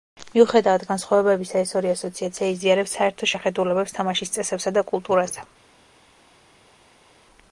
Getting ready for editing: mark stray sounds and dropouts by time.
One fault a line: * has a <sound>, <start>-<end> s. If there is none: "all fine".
all fine